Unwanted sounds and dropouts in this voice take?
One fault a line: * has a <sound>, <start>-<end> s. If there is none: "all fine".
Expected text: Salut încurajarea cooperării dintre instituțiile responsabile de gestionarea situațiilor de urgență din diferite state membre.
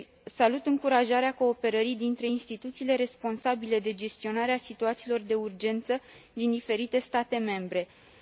all fine